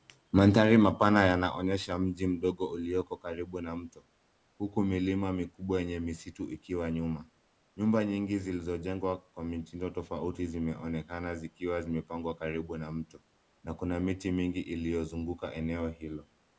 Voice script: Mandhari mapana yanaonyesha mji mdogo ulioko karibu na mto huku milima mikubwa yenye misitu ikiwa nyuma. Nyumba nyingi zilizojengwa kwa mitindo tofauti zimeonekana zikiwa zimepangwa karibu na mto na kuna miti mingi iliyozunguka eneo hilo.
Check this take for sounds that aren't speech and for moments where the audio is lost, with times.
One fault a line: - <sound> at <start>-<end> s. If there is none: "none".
none